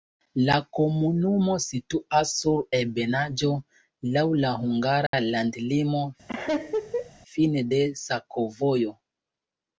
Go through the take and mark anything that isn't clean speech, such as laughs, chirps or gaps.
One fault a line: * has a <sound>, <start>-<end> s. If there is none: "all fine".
* has a dropout, 5.1-5.1 s
* has a laugh, 6.3-7.1 s